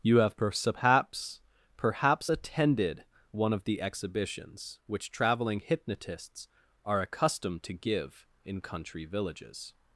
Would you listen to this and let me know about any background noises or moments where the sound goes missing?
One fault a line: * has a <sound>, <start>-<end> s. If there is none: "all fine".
all fine